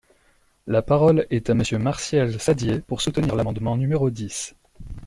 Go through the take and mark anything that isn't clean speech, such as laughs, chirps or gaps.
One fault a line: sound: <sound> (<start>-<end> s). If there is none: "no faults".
no faults